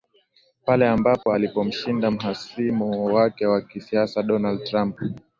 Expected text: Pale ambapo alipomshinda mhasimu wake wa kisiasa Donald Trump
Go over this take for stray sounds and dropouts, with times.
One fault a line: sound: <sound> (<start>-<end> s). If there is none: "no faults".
sound: dropout (1.2-1.3 s)